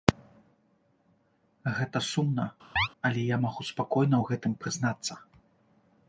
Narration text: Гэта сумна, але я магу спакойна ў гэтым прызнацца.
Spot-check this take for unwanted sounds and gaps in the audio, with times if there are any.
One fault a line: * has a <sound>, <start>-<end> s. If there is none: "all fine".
* has a chirp, 2.8-2.9 s